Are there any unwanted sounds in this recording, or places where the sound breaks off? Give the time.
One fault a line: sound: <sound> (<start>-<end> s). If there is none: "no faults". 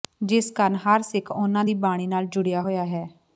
no faults